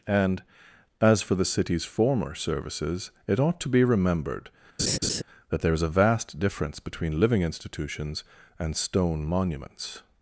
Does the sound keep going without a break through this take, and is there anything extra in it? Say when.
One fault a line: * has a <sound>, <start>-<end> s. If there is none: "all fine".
* has a laugh, 4.8-5.2 s